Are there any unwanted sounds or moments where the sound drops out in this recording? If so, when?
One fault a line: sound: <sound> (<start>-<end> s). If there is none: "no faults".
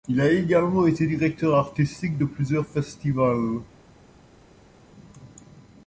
no faults